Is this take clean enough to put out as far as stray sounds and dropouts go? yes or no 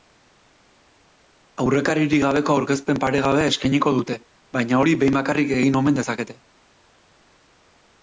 yes